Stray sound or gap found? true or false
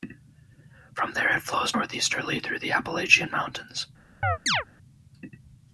true